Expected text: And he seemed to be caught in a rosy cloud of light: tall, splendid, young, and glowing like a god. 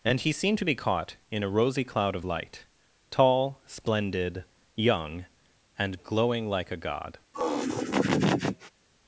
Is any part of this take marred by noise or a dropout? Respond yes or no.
yes